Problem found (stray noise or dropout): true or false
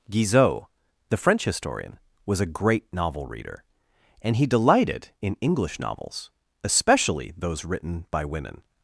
false